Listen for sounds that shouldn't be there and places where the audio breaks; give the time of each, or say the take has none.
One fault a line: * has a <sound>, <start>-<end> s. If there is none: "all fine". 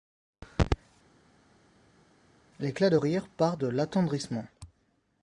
all fine